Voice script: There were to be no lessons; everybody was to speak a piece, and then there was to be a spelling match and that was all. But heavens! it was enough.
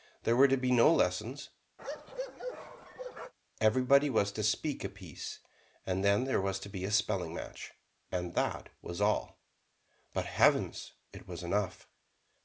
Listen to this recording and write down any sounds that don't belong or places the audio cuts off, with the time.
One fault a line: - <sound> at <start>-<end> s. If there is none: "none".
- bark at 1.8-3.3 s